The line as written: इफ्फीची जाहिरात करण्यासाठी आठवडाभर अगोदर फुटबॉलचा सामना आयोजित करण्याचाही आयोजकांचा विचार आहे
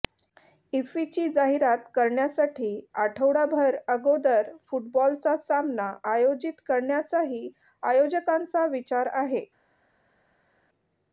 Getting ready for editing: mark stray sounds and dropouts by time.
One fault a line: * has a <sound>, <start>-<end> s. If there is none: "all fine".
all fine